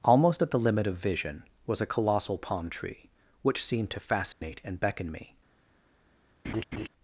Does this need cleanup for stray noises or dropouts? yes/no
yes